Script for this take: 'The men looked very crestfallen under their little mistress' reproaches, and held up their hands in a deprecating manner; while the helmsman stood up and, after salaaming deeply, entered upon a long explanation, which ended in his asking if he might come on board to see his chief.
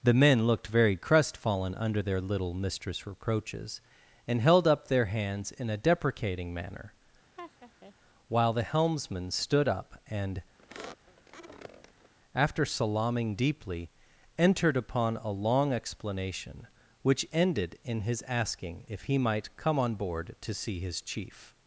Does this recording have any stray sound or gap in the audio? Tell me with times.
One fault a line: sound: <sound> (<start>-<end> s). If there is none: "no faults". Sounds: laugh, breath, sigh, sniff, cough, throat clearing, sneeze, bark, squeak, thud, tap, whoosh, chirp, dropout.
sound: laugh (7.4-7.9 s)
sound: squeak (10.6-12.1 s)